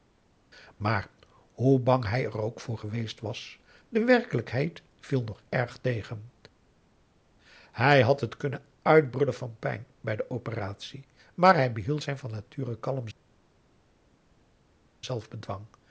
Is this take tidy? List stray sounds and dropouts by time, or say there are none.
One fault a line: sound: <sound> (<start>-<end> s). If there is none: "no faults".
no faults